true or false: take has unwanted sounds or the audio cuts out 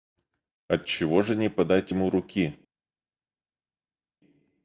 false